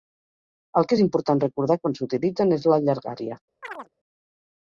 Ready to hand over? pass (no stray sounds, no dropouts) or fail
fail